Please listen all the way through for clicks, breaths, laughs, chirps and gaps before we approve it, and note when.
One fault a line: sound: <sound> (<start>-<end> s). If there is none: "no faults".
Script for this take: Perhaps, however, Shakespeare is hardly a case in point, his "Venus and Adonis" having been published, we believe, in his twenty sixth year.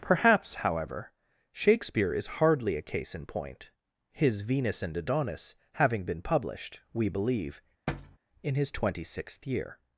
sound: thud (7.9-8.2 s)